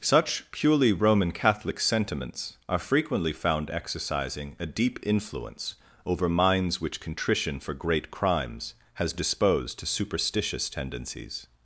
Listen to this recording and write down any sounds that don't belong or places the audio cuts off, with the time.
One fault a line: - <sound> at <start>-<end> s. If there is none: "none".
none